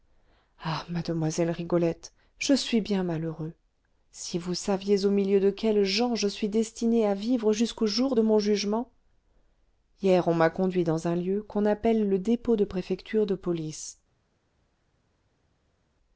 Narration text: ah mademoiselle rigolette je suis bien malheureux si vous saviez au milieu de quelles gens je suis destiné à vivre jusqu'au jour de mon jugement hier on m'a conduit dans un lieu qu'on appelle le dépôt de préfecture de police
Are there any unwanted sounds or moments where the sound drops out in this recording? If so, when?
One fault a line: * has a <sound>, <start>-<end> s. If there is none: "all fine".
all fine